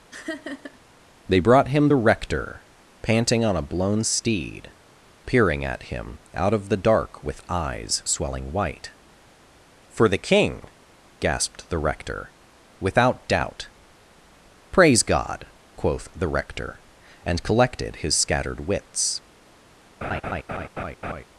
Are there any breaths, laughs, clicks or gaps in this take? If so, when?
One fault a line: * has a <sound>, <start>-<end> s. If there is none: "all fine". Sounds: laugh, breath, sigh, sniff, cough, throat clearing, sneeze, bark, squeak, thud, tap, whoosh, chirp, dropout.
* has a laugh, 0.1-0.8 s
* has a laugh, 20.0-21.2 s